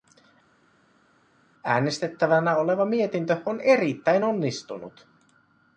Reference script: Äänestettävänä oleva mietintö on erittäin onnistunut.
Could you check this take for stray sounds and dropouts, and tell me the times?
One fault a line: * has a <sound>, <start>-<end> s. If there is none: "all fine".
all fine